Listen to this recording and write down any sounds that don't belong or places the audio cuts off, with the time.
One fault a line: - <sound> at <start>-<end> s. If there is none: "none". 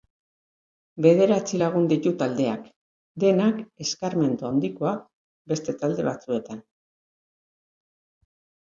none